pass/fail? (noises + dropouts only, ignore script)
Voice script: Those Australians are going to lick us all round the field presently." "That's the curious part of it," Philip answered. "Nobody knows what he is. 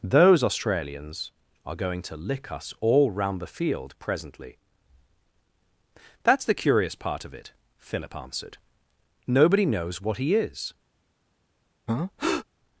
fail